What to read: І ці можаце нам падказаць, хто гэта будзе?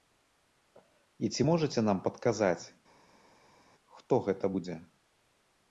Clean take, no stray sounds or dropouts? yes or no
yes